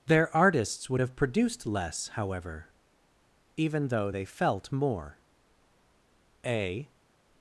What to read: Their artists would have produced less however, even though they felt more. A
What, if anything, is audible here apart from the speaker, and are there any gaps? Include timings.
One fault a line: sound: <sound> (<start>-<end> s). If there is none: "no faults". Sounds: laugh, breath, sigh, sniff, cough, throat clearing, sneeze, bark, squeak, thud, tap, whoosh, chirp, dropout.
no faults